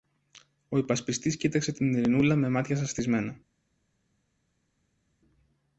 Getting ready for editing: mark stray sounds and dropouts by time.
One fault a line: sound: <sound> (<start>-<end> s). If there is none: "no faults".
no faults